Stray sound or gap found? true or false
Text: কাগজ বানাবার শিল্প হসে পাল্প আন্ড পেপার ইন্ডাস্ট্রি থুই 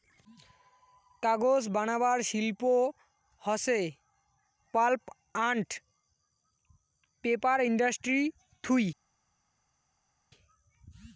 false